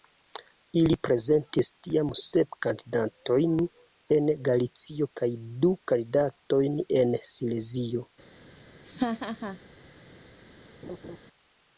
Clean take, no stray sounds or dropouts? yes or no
no